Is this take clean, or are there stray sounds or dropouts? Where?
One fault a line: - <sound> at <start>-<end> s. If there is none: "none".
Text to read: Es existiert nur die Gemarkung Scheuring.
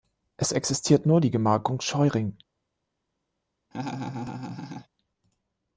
- laugh at 3.7-4.9 s